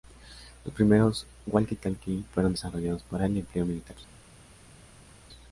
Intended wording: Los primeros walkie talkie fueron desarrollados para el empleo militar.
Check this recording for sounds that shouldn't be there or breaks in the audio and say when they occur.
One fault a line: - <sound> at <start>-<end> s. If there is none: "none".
none